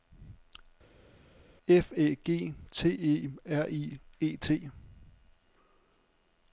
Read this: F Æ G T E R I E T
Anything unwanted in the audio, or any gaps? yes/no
no